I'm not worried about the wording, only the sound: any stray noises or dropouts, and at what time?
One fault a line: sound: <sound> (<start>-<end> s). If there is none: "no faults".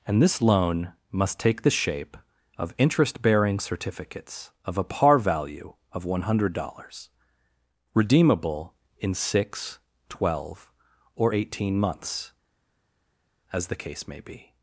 no faults